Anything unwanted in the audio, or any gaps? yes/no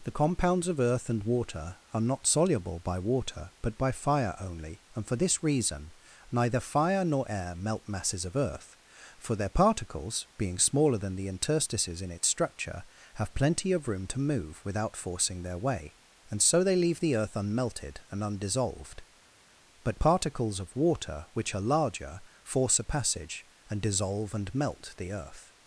no